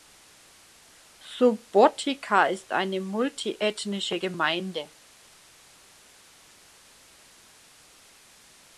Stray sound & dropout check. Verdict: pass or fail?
pass